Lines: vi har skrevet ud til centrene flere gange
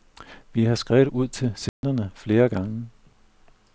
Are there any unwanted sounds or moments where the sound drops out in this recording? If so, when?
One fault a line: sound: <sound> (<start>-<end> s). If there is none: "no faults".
sound: dropout (1.7-1.8 s)